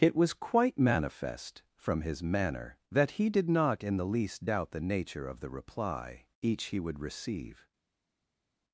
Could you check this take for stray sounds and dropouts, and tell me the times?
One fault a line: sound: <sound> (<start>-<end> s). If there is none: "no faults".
no faults